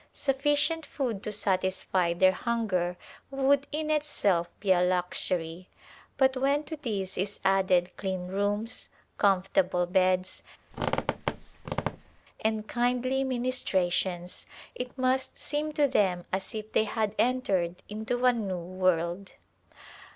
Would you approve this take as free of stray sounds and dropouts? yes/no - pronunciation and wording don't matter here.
no